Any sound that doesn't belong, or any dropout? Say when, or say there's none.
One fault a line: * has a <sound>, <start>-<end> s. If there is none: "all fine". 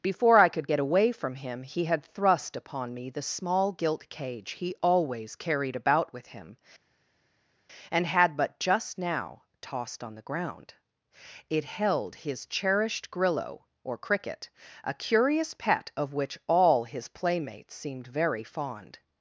all fine